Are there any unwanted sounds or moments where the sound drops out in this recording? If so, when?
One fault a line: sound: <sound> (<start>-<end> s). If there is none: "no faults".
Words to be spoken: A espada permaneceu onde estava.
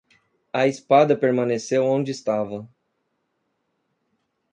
no faults